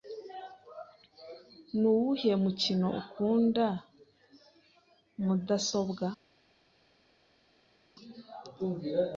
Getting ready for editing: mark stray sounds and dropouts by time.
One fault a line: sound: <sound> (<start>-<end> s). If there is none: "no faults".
no faults